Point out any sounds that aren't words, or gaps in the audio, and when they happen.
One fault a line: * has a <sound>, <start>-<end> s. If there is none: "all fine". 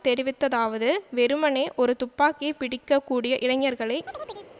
* has a chirp, 4.1-4.5 s